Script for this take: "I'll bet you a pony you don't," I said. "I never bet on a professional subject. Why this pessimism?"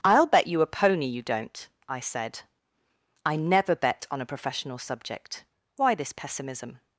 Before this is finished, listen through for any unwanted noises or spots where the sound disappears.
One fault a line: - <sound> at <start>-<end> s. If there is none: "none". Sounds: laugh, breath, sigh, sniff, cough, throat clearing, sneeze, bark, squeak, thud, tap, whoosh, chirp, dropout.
none